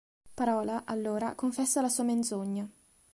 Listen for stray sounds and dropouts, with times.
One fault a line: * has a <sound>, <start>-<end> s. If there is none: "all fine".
all fine